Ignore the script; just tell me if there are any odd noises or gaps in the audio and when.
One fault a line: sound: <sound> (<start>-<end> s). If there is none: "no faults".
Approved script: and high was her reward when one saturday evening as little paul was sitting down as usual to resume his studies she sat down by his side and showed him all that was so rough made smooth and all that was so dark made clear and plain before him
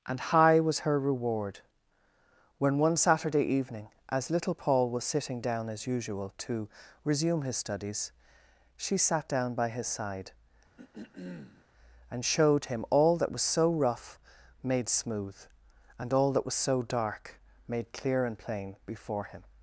sound: throat clearing (10.8-11.7 s)